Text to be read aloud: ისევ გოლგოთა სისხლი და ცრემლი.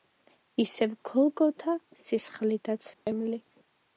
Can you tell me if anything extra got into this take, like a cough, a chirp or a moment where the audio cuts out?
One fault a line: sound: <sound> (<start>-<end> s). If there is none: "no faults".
sound: dropout (2.9-3.1 s)